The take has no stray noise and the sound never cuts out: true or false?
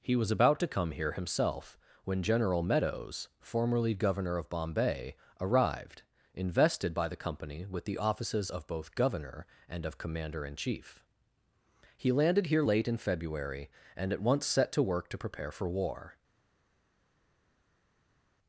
true